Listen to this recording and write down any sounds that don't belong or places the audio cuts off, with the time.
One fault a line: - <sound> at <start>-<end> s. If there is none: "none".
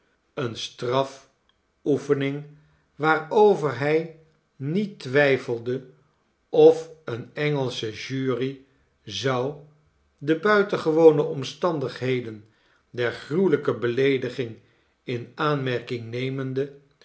none